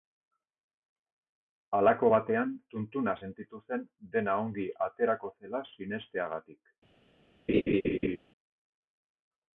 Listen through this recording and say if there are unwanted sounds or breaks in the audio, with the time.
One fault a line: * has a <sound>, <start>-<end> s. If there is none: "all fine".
* has a laugh, 7.5-8.2 s